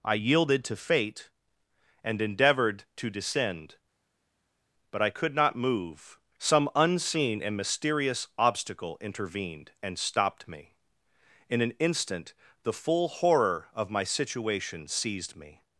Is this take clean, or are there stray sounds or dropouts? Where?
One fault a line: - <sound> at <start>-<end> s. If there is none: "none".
none